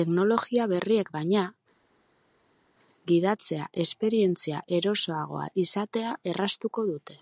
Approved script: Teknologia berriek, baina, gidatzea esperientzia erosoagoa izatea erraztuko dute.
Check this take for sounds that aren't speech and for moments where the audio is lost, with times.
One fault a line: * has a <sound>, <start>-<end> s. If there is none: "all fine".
all fine